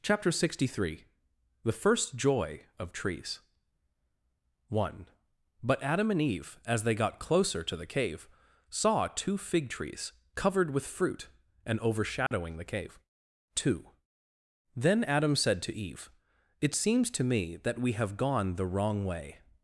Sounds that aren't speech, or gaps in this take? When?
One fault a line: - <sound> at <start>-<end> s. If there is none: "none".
- dropout at 12.3-12.3 s